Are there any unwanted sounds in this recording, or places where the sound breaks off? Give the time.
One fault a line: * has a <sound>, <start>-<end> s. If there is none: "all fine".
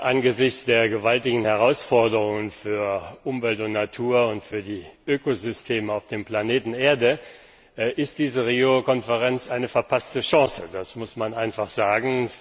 all fine